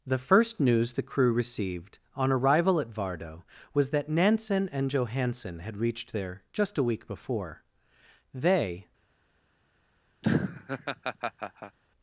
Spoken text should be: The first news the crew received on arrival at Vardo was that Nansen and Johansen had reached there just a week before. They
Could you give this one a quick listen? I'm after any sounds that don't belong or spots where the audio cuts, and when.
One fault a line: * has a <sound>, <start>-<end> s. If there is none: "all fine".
* has a laugh, 10.2-11.8 s